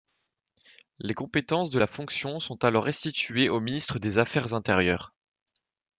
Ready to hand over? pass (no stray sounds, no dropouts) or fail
pass